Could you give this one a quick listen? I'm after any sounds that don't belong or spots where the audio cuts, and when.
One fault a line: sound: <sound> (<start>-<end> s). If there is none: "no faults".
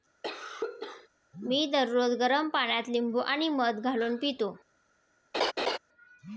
sound: cough (0.2-1.1 s)
sound: laugh (5.3-5.8 s)